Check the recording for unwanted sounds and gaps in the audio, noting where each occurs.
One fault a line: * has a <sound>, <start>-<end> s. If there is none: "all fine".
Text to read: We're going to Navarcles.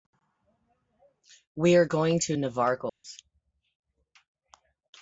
* has a dropout, 2.9-3.0 s